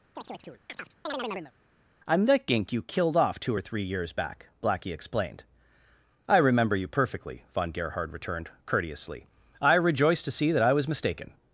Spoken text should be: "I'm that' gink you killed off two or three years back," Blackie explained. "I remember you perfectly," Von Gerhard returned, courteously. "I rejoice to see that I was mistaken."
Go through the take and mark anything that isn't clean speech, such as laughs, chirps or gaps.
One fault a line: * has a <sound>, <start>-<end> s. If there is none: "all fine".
* has a chirp, 0.2-1.5 s